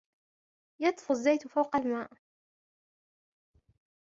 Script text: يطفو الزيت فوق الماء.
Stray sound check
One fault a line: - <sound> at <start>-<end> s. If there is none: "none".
none